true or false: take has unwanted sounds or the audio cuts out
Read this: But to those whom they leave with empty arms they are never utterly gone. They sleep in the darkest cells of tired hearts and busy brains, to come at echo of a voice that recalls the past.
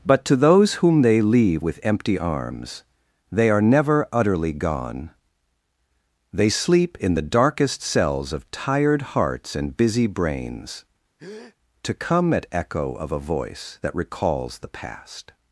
true